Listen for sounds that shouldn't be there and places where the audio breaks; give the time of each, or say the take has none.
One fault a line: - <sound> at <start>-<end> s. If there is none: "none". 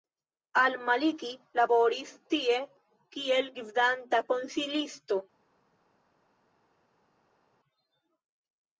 none